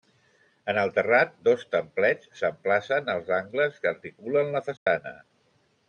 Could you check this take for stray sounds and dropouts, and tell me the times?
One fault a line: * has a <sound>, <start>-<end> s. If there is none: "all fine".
* has a dropout, 4.8-4.9 s